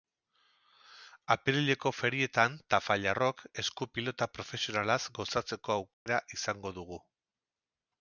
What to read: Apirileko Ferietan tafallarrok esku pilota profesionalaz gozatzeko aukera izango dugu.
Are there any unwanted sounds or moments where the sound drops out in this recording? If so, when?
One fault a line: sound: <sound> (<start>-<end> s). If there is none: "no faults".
sound: dropout (5.9-6.1 s)